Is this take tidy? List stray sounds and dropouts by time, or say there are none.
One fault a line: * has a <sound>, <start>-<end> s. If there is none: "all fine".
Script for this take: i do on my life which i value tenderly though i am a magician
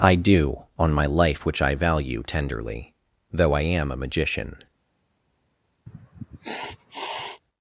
* has a sniff, 5.9-7.4 s